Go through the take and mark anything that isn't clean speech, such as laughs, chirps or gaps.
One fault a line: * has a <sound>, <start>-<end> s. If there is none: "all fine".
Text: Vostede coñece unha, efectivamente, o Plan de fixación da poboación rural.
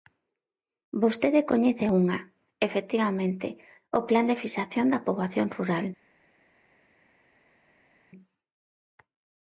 all fine